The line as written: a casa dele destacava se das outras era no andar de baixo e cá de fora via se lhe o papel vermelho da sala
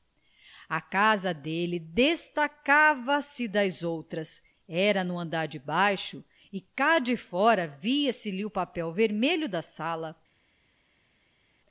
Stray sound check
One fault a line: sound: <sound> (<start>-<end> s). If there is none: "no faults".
no faults